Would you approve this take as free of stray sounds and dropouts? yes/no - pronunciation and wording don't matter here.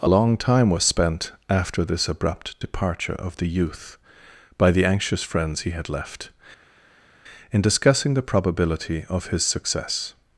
yes